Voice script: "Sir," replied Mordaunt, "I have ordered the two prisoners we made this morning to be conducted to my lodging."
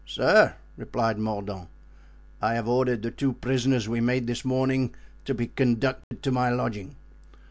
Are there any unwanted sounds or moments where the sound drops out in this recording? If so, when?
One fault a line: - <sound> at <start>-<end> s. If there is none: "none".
- dropout at 6.0-6.1 s